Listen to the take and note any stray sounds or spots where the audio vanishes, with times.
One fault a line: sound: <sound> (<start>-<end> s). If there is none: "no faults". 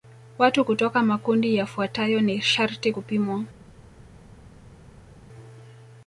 no faults